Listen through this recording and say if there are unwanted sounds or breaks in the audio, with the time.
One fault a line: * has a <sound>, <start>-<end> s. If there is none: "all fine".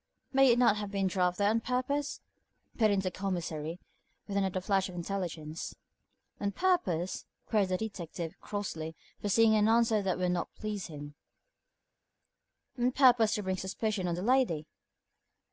all fine